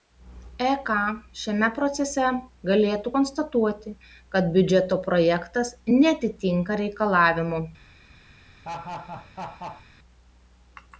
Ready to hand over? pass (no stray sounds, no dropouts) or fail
fail